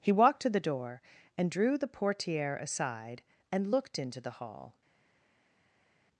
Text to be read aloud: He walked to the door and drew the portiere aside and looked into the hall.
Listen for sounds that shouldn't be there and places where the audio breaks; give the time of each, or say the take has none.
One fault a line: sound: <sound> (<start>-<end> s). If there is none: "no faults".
no faults